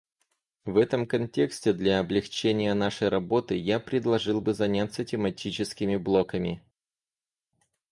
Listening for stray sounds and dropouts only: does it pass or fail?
pass